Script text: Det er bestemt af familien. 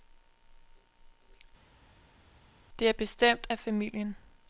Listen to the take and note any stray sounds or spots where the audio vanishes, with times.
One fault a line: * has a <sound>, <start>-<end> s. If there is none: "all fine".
all fine